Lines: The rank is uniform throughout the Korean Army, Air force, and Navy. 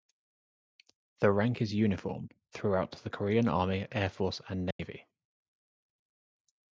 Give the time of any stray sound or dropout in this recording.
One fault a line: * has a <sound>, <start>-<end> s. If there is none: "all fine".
* has a dropout, 4.7-4.8 s